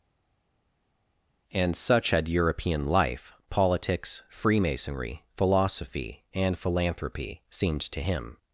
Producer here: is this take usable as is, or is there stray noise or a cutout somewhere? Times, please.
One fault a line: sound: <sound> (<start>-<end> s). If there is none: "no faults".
no faults